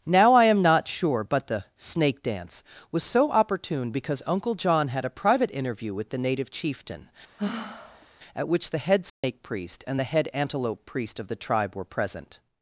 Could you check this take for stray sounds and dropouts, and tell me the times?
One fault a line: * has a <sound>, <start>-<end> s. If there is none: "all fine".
* has a sigh, 7.4-8.1 s
* has a dropout, 9.1-9.2 s